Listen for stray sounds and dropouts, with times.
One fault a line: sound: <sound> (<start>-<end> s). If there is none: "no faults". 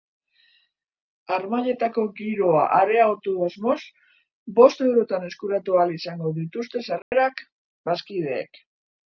sound: dropout (7.0-7.1 s)